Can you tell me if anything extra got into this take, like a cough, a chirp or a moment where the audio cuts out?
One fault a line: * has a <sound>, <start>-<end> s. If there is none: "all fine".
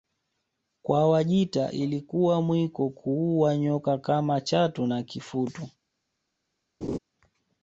* has a laugh, 6.8-7.0 s